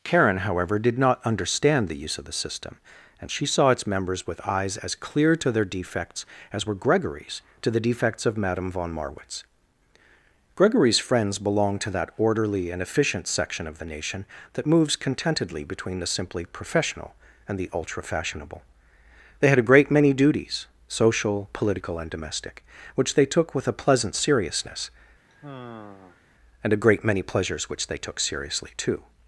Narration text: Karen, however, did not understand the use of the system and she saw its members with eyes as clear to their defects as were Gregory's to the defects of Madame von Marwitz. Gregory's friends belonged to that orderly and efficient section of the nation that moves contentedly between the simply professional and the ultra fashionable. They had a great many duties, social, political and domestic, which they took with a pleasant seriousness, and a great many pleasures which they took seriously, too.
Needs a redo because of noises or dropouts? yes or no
yes